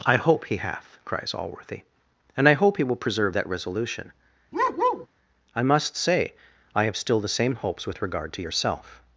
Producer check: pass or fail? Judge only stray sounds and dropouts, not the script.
fail